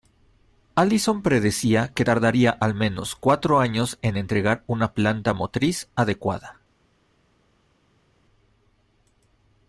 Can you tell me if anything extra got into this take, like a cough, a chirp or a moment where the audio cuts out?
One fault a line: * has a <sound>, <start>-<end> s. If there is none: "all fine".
all fine